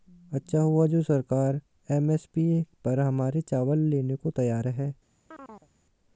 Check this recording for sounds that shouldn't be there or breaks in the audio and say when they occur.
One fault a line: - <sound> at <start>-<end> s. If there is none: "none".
- chirp at 5.3-5.7 s